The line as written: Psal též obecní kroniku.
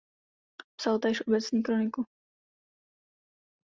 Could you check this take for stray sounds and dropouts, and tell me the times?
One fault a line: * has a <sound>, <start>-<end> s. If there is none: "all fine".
all fine